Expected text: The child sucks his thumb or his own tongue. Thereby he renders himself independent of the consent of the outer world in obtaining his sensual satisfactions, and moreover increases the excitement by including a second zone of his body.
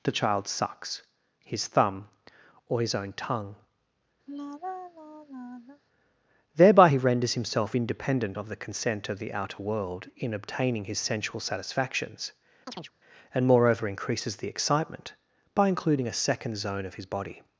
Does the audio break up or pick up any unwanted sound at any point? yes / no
yes